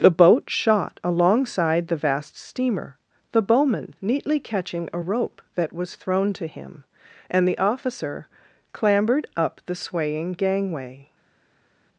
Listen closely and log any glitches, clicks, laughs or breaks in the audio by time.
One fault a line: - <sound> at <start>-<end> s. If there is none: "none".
none